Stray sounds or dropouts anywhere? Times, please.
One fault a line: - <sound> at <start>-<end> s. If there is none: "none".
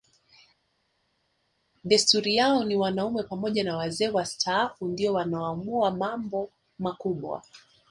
none